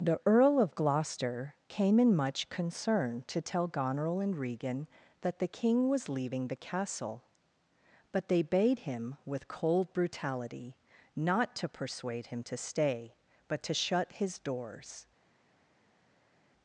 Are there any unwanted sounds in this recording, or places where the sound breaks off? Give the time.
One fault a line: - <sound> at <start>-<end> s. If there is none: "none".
none